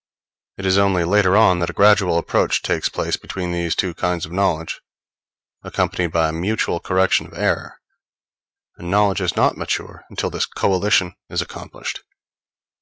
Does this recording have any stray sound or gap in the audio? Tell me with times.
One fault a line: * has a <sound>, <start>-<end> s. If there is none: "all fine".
all fine